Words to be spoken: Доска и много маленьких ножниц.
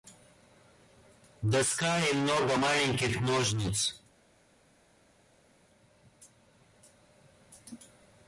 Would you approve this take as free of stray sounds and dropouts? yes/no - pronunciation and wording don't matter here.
yes